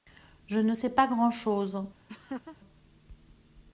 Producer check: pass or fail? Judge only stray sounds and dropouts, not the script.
fail